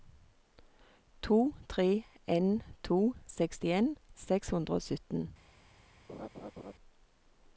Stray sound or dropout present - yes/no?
yes